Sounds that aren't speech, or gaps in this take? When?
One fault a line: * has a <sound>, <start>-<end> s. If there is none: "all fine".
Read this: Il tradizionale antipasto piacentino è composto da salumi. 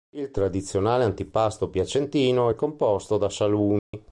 * has a dropout, 3.8-3.9 s